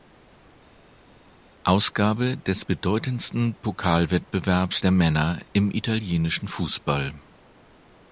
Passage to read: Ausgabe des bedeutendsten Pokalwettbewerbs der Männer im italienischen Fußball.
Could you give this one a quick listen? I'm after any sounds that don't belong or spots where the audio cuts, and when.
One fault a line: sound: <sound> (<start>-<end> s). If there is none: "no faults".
no faults